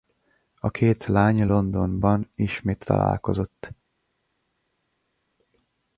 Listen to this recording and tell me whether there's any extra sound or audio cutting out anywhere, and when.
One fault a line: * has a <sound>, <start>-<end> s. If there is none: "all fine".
all fine